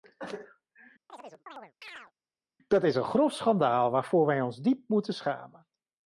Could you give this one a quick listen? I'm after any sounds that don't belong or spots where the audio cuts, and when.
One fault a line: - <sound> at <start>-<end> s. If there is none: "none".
- chirp at 1.1-2.1 s